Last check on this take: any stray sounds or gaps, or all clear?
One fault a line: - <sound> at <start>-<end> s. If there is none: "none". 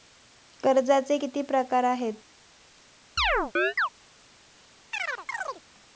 - chirp at 3.2-3.9 s
- chirp at 4.9-5.6 s